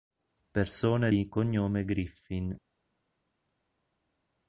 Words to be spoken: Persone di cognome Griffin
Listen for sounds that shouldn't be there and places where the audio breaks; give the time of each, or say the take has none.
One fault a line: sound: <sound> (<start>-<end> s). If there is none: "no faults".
no faults